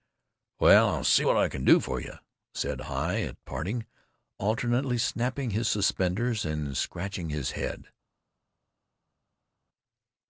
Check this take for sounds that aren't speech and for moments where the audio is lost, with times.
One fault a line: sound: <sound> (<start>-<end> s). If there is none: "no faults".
no faults